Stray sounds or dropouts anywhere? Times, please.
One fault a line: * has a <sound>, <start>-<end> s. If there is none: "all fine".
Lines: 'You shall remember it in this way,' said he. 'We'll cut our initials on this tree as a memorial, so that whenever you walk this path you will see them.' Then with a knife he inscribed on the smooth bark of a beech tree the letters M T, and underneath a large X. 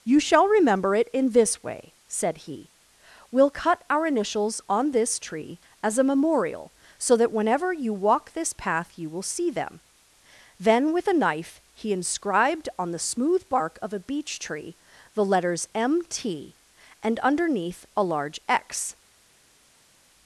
all fine